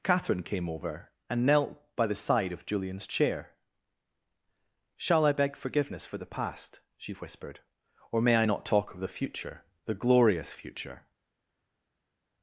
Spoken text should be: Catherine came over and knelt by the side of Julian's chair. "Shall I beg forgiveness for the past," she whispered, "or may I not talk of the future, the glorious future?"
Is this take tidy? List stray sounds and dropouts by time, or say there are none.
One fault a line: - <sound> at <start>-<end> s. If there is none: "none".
none